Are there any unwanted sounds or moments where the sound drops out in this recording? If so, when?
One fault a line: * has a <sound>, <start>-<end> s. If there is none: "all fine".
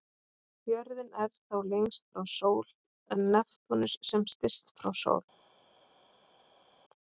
all fine